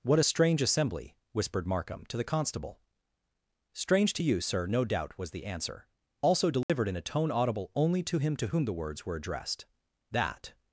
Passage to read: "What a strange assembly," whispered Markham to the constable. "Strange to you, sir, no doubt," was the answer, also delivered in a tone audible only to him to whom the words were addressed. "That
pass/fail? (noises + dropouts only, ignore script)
fail